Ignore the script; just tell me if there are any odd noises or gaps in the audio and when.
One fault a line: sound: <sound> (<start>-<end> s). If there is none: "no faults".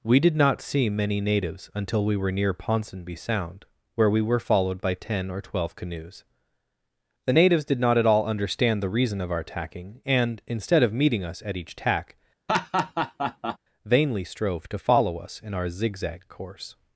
sound: laugh (12.5-13.6 s)